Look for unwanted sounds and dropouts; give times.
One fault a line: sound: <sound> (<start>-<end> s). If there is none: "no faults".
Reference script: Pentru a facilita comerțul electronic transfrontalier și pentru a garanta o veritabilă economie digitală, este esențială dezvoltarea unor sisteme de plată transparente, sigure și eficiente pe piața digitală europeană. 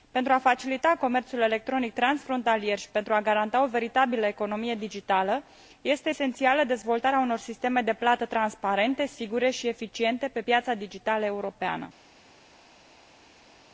no faults